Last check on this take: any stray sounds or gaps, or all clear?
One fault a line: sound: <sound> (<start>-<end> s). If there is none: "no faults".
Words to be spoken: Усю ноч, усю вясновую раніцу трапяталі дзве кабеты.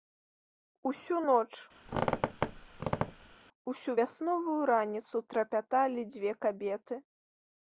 sound: squeak (1.9-3.4 s)